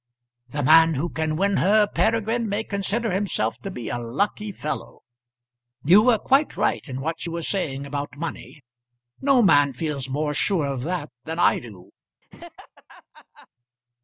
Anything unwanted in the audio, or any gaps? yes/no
yes